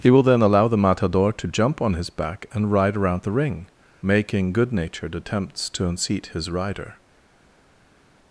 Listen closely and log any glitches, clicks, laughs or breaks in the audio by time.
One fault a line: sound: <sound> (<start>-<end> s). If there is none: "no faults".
no faults